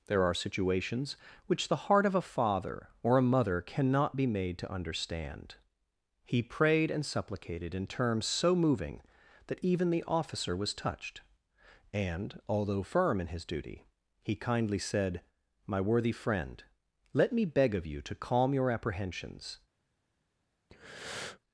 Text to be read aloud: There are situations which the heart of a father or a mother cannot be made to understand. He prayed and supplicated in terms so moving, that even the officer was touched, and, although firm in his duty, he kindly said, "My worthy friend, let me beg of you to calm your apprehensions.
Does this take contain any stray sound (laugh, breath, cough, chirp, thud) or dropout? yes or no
yes